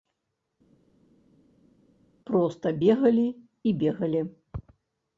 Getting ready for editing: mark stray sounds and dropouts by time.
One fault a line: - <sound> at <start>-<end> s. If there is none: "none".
none